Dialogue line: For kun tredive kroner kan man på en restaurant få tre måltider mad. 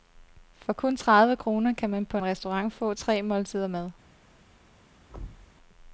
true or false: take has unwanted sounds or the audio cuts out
true